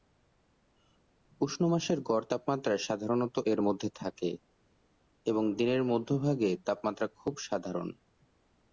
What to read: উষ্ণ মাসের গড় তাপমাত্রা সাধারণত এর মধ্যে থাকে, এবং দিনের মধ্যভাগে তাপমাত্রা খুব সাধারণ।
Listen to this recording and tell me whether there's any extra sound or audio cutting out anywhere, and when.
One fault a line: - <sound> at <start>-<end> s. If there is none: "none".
none